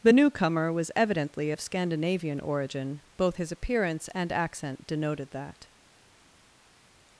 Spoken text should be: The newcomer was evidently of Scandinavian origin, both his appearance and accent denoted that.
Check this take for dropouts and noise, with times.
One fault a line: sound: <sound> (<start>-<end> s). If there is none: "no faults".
no faults